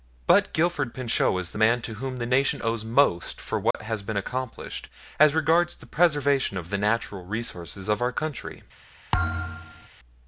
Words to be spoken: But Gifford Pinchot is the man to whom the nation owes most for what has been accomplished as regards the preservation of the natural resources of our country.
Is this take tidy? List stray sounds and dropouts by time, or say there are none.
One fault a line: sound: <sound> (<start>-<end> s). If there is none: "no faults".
sound: dropout (3.7-3.7 s)
sound: thud (9.1-9.9 s)